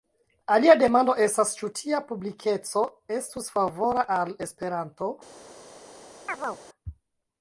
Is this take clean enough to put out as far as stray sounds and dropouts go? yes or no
no